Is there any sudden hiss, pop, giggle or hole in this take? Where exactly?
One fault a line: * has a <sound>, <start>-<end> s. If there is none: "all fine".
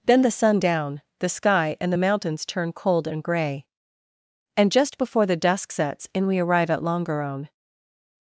all fine